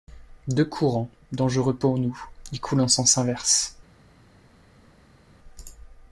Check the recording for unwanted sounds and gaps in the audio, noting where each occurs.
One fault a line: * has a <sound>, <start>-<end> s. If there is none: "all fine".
all fine